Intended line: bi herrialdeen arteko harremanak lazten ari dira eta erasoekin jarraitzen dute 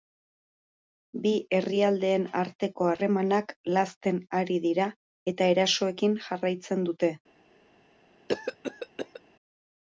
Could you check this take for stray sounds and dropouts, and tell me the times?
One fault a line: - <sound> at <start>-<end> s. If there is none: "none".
- cough at 8.3-9.2 s